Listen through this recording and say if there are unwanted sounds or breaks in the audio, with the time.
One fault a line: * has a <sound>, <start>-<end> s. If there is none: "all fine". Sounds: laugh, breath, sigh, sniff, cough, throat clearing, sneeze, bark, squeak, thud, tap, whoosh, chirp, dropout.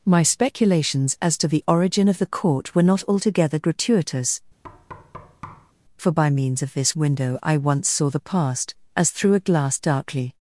* has a thud, 4.6-5.7 s